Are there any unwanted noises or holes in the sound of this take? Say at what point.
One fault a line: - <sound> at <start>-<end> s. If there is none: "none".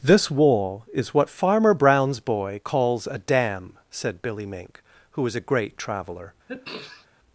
- sneeze at 6.5-7.1 s